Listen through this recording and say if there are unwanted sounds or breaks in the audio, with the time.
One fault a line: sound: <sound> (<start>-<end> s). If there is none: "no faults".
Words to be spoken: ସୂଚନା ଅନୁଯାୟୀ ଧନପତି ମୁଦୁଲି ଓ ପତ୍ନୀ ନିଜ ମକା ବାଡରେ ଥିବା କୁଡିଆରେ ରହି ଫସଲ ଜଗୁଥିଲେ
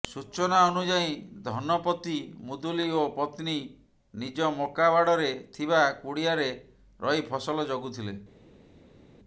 no faults